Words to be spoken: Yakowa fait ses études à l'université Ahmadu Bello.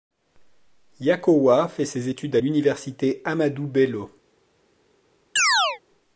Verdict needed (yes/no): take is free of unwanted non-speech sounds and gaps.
no